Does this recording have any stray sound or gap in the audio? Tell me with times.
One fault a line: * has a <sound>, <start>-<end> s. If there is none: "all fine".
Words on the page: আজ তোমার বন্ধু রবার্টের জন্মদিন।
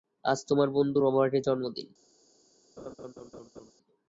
* has a laugh, 2.8-3.7 s